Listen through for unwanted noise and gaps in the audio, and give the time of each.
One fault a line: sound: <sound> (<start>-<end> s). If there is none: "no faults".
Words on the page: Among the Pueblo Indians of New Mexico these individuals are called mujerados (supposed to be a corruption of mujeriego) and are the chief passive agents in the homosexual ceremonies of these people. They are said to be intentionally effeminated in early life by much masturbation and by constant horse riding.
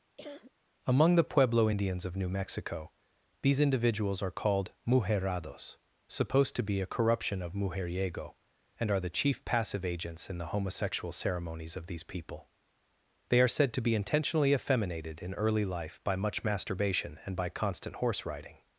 sound: cough (0.2-0.5 s)